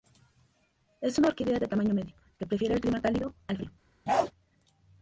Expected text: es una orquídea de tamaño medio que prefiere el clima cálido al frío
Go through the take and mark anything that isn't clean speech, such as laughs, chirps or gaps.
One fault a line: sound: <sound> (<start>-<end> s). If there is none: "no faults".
sound: bark (4.1-4.3 s)